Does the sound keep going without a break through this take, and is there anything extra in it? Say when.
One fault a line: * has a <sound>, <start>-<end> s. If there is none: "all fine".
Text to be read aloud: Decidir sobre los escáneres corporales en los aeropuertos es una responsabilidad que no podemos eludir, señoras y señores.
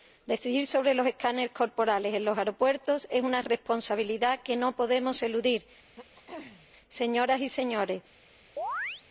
* has a throat clearing, 6.0-6.7 s
* has a chirp, 8.6-9.0 s